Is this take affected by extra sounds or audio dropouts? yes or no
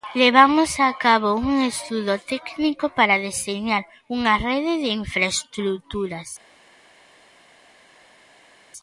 no